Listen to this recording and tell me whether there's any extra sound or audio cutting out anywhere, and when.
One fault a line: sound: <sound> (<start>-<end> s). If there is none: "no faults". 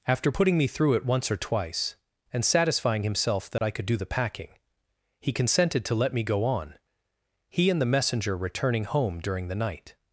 sound: dropout (3.6-3.6 s)